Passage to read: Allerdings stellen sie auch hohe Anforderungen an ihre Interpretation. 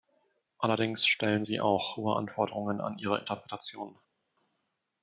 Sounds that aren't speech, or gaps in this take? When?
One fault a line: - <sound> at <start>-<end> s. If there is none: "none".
none